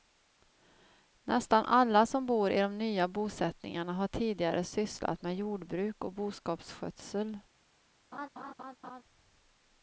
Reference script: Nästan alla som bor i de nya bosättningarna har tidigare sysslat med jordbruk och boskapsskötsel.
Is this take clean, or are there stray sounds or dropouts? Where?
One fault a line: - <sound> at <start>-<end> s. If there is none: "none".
- laugh at 8.1-9.0 s